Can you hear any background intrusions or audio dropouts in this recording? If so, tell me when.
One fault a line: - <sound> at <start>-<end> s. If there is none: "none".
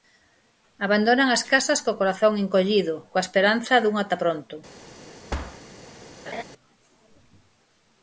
- thud at 5.3-5.6 s
- laugh at 6.3-6.4 s